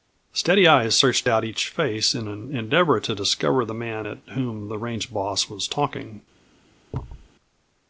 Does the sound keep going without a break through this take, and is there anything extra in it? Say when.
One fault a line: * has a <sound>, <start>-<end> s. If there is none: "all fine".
* has a thud, 6.9-7.3 s